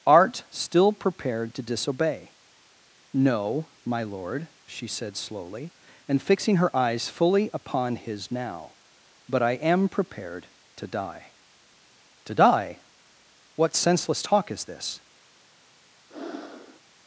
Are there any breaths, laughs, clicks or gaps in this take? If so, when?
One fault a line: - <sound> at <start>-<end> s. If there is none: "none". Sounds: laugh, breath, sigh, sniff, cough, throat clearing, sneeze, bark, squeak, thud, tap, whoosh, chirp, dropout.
- breath at 16.1-16.8 s